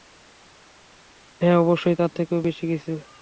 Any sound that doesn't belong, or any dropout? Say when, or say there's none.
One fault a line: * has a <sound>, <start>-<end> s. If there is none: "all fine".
all fine